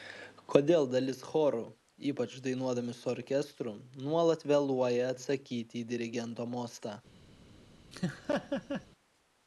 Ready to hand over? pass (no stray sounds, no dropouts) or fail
fail